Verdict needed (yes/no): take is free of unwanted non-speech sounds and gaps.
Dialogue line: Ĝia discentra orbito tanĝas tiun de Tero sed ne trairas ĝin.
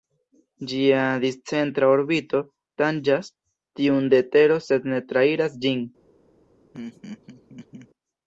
no